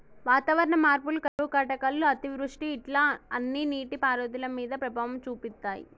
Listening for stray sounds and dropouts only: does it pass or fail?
fail